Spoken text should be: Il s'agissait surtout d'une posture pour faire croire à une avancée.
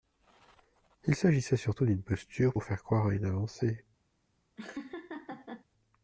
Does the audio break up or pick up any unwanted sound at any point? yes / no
yes